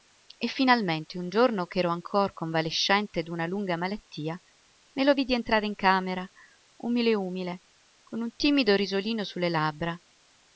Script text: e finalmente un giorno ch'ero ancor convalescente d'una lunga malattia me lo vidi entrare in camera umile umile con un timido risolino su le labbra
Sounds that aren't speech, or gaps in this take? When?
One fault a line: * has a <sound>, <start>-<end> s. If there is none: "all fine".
all fine